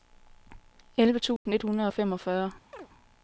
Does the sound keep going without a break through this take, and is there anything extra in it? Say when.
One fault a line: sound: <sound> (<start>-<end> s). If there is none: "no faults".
sound: dropout (1.4-1.5 s)
sound: chirp (2.7-2.9 s)